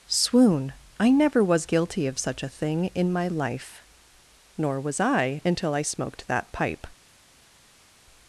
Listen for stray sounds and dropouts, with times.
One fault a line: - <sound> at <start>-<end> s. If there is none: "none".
none